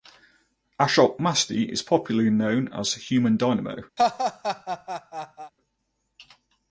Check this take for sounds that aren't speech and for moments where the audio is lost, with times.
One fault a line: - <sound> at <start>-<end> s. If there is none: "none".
- laugh at 4.0-5.5 s